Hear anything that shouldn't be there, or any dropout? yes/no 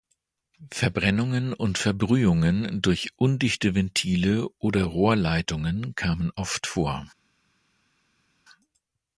no